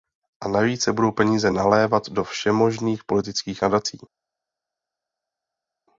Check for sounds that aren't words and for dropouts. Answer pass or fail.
pass